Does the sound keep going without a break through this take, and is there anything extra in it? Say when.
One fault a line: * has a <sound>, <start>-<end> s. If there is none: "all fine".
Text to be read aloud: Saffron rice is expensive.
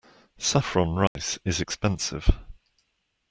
* has a dropout, 1.1-1.2 s